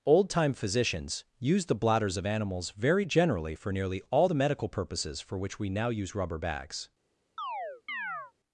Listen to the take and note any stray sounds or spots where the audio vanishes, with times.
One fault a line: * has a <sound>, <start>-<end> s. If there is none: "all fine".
* has a chirp, 7.4-8.3 s